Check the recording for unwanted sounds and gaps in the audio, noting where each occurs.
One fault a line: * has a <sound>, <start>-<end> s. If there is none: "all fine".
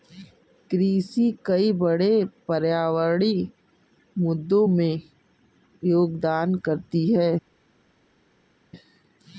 all fine